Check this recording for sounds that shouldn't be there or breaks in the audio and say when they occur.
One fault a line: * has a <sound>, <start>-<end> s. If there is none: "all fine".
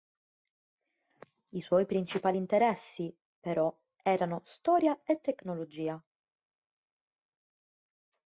all fine